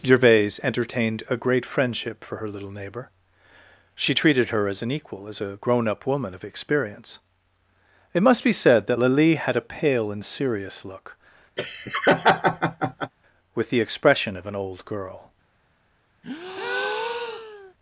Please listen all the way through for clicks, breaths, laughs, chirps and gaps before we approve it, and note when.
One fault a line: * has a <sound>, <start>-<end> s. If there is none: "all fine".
* has a laugh, 11.6-13.1 s
* has a breath, 16.2-17.7 s